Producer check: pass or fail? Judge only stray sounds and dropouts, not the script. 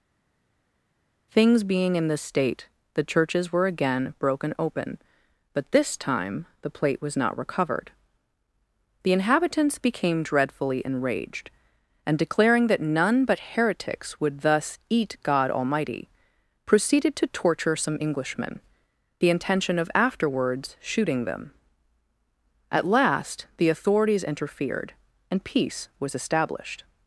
pass